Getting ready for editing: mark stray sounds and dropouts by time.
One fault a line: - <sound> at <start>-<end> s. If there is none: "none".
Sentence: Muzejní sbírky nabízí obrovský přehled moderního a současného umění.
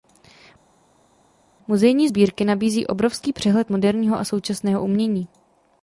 none